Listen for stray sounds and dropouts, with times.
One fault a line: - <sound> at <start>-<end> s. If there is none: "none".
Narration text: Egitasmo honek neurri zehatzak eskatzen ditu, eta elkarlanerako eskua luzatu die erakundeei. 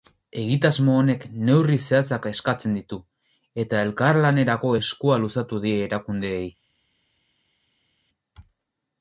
none